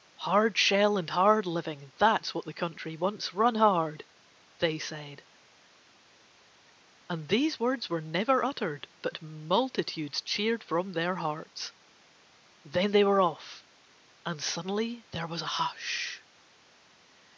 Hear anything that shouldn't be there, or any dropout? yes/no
no